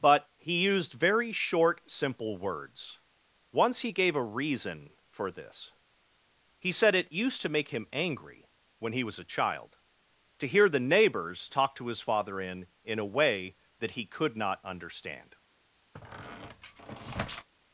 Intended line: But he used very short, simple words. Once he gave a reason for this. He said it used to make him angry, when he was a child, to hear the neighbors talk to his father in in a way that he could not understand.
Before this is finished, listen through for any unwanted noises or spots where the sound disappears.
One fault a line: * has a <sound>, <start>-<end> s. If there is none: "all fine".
* has a squeak, 15.9-17.5 s